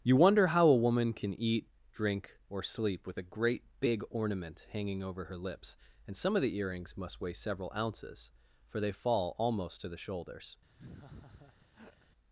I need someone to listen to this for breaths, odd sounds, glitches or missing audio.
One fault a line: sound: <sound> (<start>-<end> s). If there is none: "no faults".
sound: laugh (10.8-12.1 s)